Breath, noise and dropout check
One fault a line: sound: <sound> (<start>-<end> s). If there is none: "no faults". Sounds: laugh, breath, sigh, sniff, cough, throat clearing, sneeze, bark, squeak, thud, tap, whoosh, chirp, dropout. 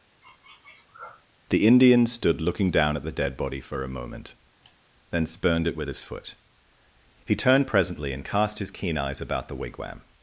sound: sniff (0.2-1.3 s)
sound: sigh (4.6-4.8 s)